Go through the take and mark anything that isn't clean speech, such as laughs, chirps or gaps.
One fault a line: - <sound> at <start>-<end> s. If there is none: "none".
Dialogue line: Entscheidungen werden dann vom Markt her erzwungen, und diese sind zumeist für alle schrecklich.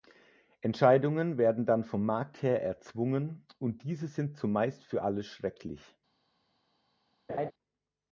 - laugh at 7.3-7.5 s